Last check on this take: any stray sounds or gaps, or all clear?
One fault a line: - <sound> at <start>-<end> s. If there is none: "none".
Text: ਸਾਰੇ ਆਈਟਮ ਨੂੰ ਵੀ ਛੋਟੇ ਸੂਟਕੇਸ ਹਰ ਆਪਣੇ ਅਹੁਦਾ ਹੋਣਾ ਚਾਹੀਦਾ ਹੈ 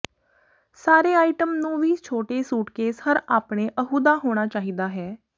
none